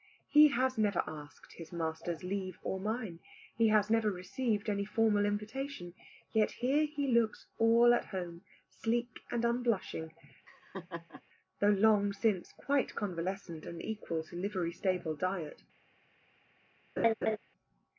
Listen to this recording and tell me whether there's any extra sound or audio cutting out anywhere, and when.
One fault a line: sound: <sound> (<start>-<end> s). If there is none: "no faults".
sound: laugh (10.5-11.2 s)
sound: laugh (17.0-17.4 s)